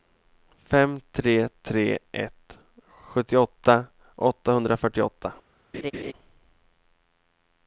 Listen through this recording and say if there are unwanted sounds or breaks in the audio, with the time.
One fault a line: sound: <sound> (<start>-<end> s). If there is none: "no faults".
sound: laugh (5.7-6.1 s)